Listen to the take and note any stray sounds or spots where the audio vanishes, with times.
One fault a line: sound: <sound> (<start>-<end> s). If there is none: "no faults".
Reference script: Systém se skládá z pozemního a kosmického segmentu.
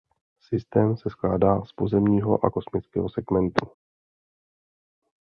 no faults